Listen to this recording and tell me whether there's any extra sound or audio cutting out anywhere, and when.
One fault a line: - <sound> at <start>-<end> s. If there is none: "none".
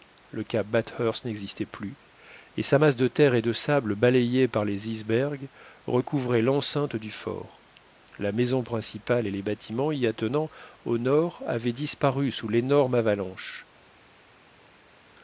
none